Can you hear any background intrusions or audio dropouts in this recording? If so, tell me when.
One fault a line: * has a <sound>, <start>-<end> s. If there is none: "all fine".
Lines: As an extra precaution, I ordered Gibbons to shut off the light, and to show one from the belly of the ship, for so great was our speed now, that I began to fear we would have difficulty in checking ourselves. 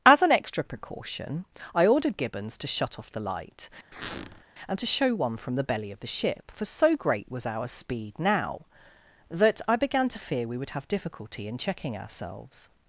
* has a squeak, 3.9-4.4 s